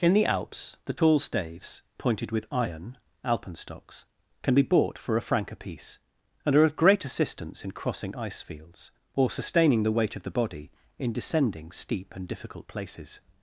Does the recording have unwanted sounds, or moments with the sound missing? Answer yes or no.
no